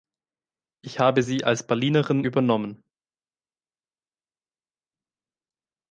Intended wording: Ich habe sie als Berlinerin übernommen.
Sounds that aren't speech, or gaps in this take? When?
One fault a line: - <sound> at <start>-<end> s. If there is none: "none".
none